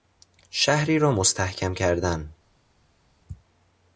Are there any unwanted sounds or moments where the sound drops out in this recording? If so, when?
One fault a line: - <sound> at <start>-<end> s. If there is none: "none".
none